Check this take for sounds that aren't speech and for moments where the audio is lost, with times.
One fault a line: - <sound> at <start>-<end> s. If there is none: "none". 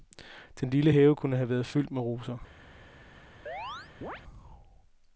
- chirp at 3.5-4.2 s